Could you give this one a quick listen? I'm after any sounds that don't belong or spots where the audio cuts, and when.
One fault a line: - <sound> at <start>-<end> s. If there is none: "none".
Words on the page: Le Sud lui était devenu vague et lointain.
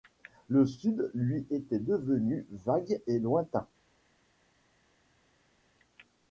none